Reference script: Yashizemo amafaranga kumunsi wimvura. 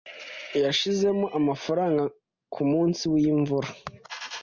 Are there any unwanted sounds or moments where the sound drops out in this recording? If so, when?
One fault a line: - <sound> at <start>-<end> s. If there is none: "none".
none